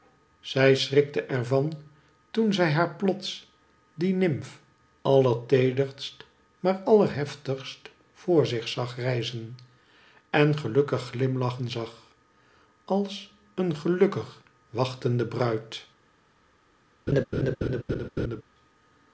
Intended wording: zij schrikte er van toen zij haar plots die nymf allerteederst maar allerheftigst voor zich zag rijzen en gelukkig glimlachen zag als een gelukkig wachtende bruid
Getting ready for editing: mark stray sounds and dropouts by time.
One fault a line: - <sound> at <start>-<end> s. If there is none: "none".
- laugh at 17.1-18.4 s